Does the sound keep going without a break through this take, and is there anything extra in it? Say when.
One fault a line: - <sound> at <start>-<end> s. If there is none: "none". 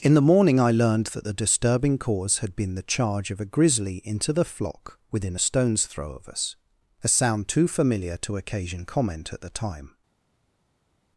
none